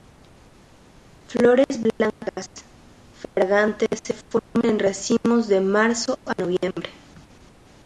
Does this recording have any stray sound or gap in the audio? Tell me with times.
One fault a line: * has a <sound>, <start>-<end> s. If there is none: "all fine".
all fine